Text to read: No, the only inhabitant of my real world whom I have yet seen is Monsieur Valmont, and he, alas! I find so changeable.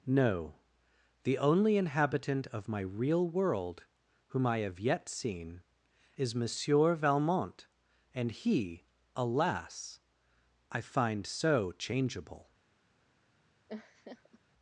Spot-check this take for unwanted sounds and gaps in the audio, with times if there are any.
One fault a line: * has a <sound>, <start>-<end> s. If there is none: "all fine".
* has a laugh, 13.7-14.4 s